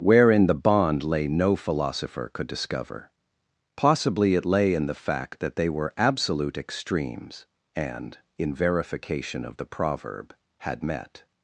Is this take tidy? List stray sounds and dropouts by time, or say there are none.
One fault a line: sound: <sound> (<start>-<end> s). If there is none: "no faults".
no faults